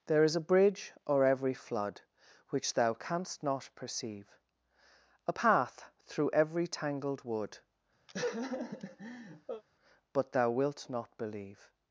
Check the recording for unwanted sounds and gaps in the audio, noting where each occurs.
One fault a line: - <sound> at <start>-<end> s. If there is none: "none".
- laugh at 8.1-9.6 s